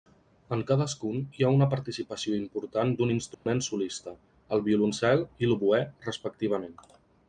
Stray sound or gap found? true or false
true